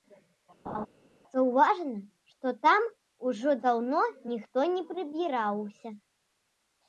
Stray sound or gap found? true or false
true